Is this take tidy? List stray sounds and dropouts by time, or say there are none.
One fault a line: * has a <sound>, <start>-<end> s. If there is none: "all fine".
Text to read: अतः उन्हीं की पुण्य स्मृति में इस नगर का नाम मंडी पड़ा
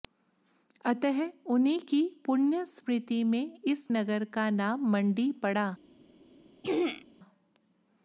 * has a throat clearing, 6.6-7.0 s